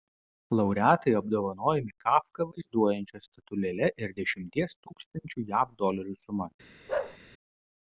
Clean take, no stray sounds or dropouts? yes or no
no